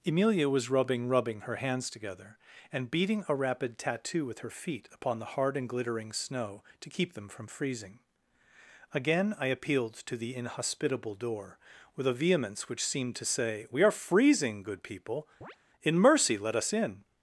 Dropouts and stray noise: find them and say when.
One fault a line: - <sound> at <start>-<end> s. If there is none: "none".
- chirp at 15.4-15.6 s